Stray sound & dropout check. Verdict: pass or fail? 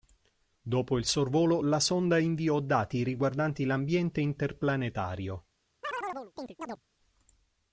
fail